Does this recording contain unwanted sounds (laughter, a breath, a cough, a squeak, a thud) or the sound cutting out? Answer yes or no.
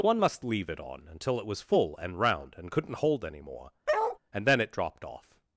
yes